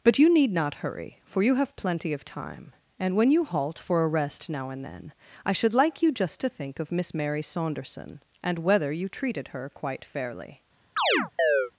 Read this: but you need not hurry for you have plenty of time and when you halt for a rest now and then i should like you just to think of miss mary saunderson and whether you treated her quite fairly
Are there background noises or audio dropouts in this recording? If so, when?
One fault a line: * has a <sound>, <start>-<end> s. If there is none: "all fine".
* has a chirp, 11.0-11.7 s